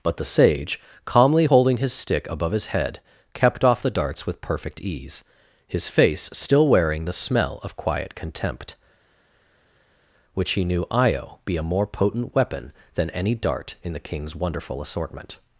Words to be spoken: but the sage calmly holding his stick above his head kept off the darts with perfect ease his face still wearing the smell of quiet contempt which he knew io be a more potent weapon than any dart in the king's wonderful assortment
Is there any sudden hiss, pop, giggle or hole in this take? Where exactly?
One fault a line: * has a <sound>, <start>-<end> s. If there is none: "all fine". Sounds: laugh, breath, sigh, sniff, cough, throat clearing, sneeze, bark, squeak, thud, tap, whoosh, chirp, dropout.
all fine